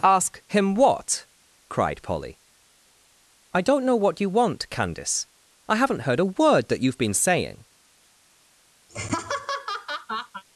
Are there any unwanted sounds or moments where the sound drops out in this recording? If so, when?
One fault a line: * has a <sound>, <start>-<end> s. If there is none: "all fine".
* has a laugh, 8.9-10.4 s